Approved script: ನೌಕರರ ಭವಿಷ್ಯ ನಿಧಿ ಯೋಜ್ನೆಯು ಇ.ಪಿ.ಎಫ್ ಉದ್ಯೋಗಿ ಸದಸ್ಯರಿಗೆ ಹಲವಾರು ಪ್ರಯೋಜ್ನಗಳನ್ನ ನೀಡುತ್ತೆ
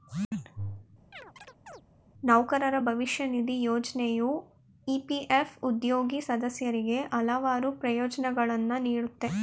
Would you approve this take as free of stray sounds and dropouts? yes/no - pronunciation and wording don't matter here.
no